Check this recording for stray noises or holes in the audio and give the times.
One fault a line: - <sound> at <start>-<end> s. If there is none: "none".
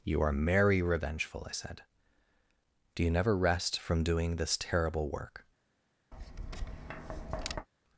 - tap at 6.1-7.7 s